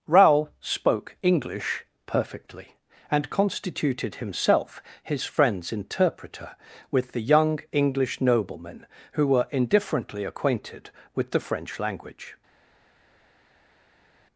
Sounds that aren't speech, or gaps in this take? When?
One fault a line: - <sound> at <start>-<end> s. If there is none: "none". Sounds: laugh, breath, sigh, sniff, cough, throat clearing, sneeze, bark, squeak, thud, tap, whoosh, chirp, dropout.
none